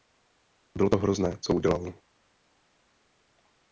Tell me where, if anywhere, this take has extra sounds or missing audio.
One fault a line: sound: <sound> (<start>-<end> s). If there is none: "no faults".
no faults